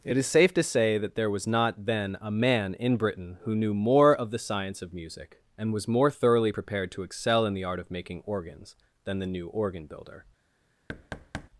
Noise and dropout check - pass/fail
fail